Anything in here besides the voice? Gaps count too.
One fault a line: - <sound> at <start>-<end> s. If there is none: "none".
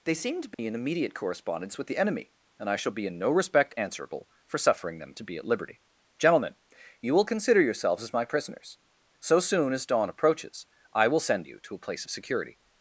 - dropout at 0.5-0.6 s